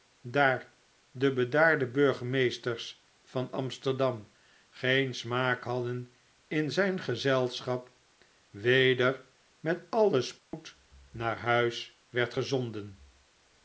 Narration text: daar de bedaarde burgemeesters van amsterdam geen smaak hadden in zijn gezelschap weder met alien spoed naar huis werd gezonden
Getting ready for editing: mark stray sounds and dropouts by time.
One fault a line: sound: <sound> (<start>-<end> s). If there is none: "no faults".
sound: dropout (10.4-10.5 s)